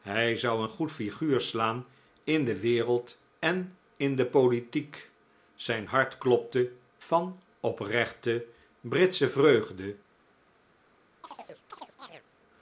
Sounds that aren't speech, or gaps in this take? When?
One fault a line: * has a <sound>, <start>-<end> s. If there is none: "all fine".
* has a chirp, 11.2-12.2 s